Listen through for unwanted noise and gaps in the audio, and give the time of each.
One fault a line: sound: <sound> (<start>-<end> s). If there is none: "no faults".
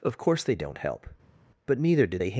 no faults